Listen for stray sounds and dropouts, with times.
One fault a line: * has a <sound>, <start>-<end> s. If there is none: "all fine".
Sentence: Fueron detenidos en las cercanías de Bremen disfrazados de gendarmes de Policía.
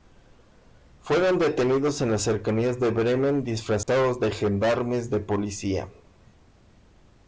* has a dropout, 3.8-3.9 s